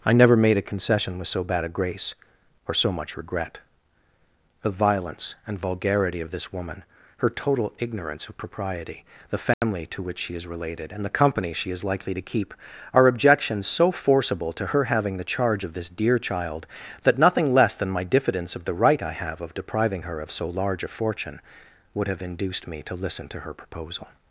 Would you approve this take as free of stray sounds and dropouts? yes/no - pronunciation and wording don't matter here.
no